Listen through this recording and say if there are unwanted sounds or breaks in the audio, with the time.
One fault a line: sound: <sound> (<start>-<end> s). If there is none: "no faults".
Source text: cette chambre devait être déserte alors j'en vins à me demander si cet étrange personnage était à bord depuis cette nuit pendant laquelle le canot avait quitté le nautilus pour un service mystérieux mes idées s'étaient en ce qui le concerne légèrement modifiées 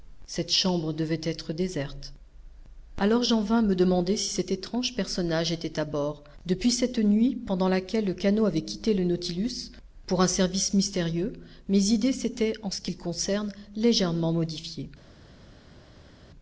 no faults